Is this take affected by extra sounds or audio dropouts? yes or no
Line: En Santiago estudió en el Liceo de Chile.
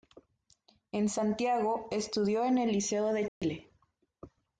yes